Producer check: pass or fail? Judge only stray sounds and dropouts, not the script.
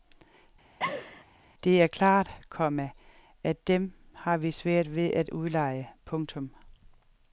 fail